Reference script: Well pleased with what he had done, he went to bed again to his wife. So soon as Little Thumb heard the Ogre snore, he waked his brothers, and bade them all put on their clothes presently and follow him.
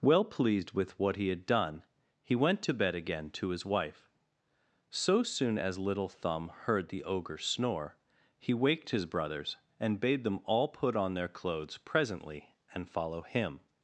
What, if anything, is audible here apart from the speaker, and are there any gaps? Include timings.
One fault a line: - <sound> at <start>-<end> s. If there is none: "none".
none